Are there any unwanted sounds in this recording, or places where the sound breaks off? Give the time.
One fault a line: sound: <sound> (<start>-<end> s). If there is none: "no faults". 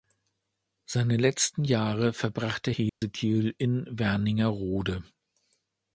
sound: dropout (2.9-3.0 s)